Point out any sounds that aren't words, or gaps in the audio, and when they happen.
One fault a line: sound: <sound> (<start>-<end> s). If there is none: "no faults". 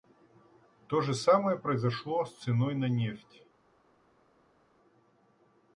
no faults